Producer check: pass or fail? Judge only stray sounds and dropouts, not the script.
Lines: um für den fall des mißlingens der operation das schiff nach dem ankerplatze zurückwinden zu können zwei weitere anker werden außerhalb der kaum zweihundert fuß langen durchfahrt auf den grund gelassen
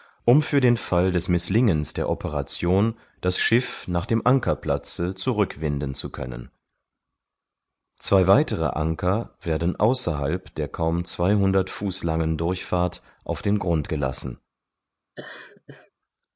fail